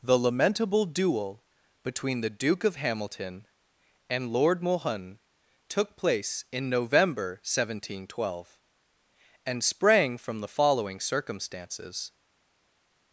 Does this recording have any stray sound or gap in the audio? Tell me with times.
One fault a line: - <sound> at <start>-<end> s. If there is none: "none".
none